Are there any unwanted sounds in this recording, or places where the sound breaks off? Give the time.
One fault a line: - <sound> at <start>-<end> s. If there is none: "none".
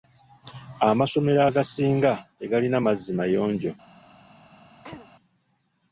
- throat clearing at 4.8-5.1 s